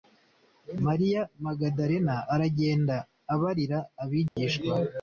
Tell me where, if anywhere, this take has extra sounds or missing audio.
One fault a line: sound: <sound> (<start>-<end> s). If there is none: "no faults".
sound: dropout (4.3-4.4 s)